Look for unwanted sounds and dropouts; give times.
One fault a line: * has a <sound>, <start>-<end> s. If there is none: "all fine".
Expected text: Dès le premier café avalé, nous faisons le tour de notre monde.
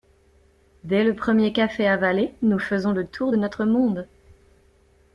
all fine